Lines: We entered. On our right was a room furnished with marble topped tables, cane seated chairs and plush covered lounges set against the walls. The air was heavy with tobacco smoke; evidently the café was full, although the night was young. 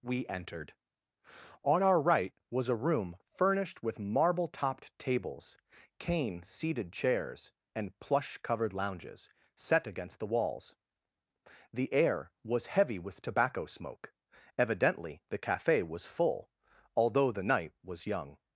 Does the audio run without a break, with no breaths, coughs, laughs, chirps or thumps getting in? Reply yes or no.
yes